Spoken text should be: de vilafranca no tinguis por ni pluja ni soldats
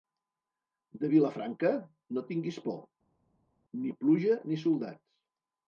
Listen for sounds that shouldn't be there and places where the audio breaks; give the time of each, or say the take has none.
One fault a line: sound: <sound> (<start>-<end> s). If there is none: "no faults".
no faults